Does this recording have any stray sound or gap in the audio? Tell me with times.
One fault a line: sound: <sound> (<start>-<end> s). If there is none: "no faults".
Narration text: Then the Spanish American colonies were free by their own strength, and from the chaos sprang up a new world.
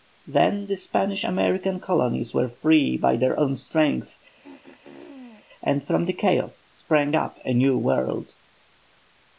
sound: throat clearing (4.4-5.5 s)